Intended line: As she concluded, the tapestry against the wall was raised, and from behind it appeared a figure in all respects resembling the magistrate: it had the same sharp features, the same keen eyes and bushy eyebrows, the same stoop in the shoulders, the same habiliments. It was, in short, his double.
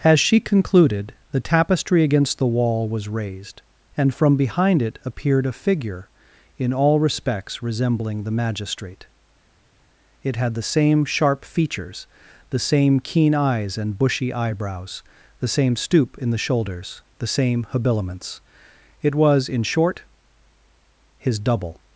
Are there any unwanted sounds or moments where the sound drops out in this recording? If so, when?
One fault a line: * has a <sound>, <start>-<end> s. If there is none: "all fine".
all fine